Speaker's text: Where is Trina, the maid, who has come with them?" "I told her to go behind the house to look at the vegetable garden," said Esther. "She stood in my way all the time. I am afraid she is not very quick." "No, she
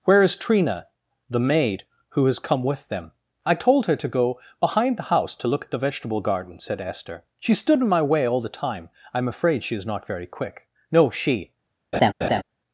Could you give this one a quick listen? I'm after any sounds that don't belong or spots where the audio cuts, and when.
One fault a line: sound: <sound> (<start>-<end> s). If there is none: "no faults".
sound: laugh (11.9-12.4 s)